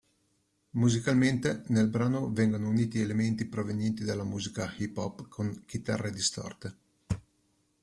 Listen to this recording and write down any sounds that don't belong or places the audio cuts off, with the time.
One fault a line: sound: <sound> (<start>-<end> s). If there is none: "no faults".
no faults